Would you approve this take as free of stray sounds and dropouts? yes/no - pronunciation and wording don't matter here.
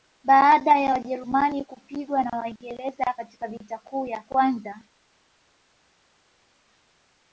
yes